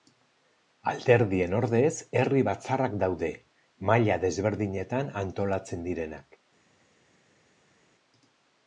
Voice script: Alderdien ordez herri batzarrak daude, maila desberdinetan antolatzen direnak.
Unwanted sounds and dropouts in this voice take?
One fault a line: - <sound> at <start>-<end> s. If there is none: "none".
none